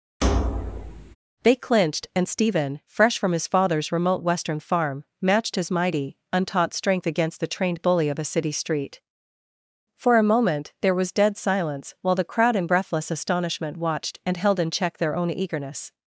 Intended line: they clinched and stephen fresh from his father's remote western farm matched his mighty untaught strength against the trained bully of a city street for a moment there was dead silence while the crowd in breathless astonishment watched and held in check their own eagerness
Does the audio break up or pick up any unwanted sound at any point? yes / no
yes